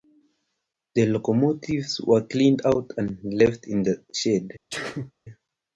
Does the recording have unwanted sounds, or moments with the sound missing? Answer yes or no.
yes